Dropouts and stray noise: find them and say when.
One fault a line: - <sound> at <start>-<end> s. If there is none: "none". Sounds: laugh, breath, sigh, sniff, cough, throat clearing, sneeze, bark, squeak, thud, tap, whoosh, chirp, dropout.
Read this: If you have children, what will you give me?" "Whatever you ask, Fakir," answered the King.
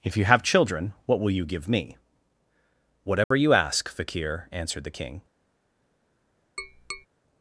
- dropout at 3.2-3.3 s
- tap at 6.6-7.1 s